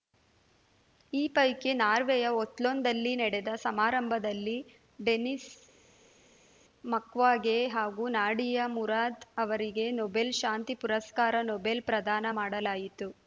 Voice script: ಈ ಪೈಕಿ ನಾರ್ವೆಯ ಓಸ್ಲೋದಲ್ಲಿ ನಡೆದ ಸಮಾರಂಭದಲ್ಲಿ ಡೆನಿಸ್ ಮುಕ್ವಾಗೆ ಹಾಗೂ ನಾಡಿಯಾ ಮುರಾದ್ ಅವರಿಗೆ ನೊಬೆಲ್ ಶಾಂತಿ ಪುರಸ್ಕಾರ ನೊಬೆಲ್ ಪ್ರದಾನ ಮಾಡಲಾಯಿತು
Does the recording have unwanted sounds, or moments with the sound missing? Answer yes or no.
no